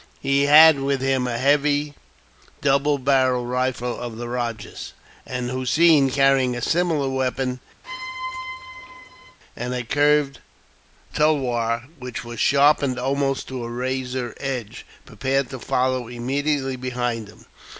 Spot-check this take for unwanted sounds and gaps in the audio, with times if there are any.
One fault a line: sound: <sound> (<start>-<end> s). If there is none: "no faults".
sound: squeak (7.8-9.4 s)